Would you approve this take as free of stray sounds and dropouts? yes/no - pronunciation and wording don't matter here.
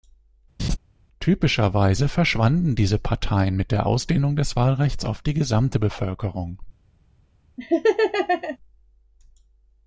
no